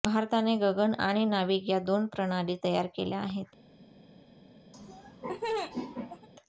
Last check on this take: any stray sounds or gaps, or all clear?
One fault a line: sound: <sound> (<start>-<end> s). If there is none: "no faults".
sound: laugh (4.7-6.3 s)